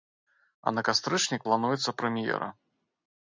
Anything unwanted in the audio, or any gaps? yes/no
no